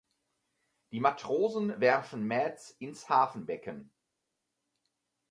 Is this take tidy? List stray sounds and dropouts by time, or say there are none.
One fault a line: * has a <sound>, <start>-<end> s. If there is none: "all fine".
all fine